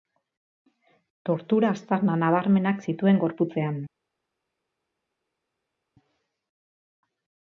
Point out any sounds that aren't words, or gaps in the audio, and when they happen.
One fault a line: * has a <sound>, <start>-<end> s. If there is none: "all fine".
all fine